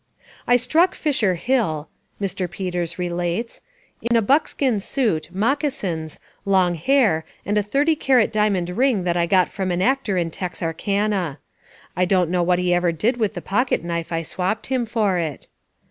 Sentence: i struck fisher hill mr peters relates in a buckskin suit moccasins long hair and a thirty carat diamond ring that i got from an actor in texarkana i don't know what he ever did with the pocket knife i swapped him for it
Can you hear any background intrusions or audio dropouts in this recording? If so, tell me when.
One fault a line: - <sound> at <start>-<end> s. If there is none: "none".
- dropout at 4.1-4.1 s